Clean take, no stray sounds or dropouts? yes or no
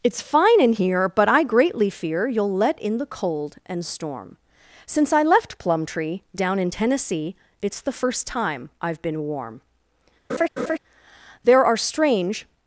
no